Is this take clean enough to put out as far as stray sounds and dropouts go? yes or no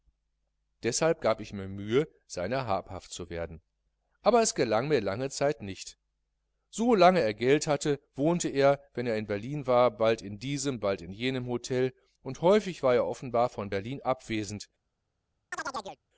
no